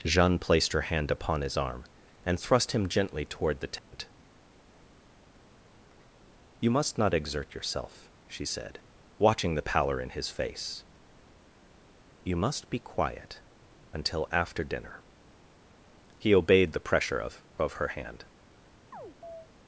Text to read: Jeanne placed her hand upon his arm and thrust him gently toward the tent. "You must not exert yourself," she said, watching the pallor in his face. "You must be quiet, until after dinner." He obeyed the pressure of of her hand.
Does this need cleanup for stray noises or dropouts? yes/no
yes